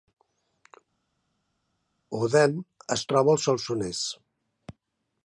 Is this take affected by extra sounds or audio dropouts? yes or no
no